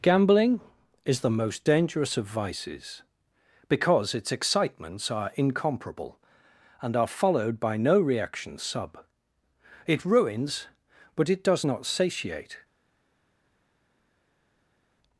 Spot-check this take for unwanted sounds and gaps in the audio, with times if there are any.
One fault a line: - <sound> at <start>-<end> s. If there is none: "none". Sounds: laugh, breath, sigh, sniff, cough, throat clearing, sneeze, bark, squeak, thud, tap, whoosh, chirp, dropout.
none